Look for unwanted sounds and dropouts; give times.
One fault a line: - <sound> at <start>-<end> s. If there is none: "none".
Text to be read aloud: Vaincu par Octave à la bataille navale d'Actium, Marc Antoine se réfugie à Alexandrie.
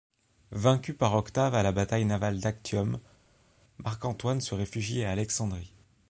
none